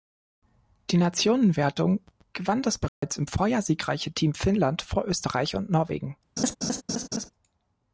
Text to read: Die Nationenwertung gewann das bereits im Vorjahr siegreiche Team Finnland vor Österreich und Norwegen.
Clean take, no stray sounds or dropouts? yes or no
no